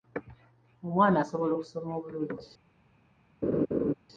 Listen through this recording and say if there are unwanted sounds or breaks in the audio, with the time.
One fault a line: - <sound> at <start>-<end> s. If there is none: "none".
- laugh at 3.4-3.9 s